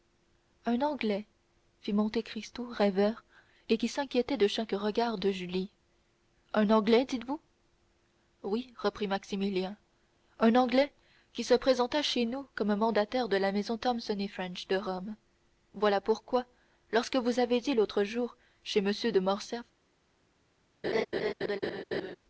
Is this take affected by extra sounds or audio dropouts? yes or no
yes